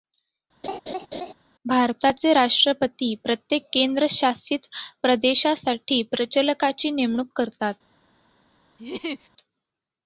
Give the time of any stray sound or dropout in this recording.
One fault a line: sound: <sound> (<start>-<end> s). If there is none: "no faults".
sound: laugh (0.6-1.3 s)
sound: laugh (8.8-9.3 s)